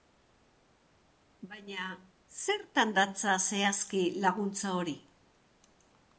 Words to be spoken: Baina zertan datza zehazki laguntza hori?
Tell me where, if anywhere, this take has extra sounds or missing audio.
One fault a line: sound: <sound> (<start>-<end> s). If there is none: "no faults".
no faults